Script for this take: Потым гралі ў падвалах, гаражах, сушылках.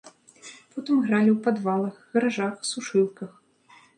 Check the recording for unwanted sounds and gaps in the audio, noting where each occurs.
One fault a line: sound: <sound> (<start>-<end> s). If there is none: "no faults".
no faults